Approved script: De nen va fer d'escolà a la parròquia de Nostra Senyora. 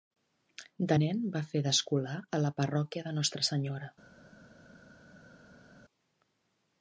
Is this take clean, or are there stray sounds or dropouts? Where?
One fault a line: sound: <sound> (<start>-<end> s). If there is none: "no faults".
no faults